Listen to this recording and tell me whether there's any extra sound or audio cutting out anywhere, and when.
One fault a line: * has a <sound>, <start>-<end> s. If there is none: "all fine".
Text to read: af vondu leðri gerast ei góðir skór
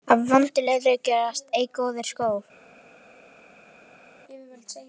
all fine